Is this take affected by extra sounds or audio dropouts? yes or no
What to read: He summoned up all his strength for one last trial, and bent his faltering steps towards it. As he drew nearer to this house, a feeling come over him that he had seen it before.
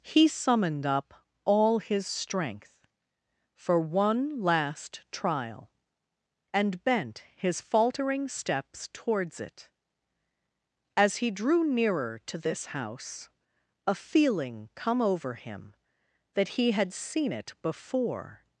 no